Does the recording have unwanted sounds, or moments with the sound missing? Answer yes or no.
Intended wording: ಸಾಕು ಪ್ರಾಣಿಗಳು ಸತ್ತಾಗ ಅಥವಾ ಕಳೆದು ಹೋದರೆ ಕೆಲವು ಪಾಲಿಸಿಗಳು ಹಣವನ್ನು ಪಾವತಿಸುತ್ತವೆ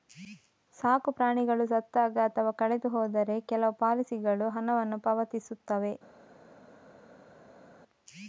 no